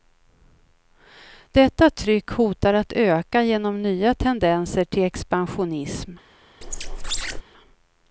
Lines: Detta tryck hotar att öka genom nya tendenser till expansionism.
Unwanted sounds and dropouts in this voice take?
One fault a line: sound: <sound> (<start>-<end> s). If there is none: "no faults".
sound: squeak (6.6-7.4 s)